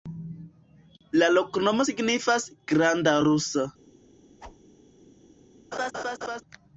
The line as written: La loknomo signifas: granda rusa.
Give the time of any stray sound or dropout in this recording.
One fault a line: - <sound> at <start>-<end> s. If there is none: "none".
- whoosh at 4.4-4.6 s
- laugh at 5.7-6.4 s